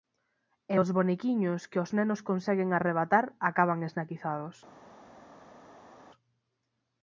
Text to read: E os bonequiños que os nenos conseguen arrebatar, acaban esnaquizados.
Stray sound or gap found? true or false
false